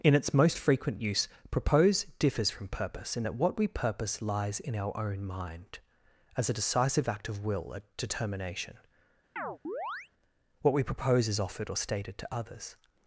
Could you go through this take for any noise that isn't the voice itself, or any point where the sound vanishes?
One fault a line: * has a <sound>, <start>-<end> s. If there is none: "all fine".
* has a chirp, 9.4-10.1 s